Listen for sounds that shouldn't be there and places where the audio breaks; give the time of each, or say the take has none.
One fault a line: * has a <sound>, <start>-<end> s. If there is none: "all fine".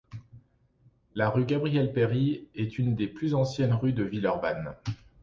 all fine